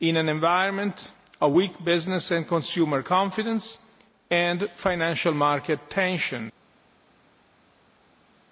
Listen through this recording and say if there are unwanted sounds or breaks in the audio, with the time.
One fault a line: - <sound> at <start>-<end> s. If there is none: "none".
none